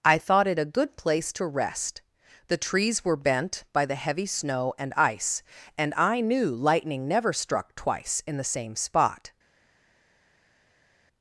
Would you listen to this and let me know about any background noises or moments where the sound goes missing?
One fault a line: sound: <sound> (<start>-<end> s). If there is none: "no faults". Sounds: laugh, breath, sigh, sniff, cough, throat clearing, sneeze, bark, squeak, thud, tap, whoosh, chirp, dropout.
no faults